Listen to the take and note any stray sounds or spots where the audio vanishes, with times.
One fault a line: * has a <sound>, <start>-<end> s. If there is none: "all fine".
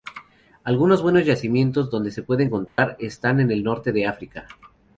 * has a dropout, 2.7-2.8 s